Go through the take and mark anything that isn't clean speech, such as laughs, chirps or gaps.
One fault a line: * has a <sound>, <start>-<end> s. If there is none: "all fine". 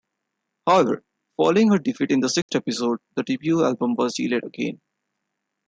* has a dropout, 2.4-2.5 s